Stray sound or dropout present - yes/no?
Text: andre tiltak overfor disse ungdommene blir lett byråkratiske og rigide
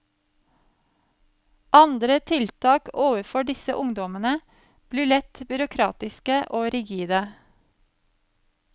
no